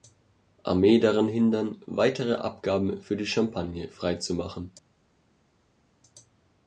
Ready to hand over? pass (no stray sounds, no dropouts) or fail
pass